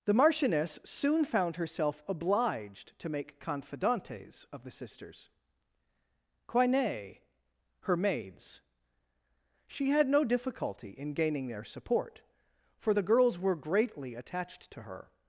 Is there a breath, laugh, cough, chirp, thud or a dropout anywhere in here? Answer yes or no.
no